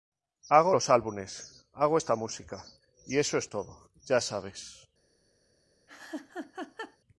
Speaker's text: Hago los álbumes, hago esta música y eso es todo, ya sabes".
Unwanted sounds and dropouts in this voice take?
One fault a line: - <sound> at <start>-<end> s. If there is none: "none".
- laugh at 5.9-7.0 s